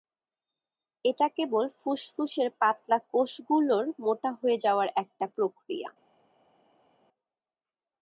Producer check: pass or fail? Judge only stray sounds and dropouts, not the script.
pass